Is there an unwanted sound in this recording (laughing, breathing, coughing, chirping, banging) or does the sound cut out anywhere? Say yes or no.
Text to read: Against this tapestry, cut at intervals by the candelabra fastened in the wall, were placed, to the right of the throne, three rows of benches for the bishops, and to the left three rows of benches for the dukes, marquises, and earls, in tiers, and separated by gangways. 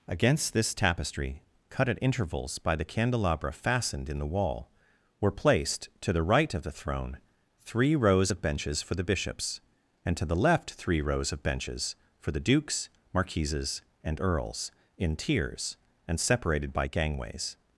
no